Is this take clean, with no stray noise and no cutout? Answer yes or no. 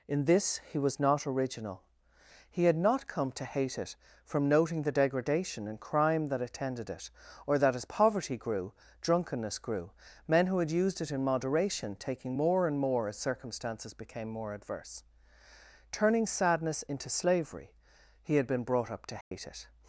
no